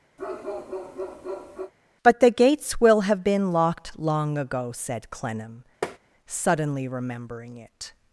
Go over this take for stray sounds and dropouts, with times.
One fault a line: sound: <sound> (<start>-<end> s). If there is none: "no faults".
sound: bark (0.2-1.7 s)
sound: tap (5.8-6.0 s)